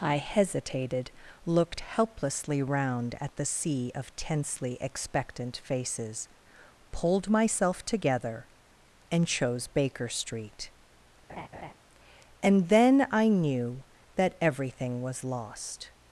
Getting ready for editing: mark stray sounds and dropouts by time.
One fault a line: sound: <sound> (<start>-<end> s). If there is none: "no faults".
sound: laugh (11.3-11.7 s)